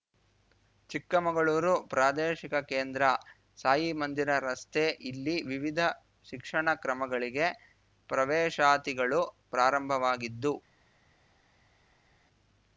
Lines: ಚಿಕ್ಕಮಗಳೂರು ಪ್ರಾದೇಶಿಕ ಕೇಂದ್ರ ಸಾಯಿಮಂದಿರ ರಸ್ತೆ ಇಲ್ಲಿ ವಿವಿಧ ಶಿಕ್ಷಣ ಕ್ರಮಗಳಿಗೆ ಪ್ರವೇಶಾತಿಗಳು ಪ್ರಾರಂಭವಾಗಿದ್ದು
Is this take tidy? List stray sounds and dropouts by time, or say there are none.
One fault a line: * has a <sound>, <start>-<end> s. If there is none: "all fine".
all fine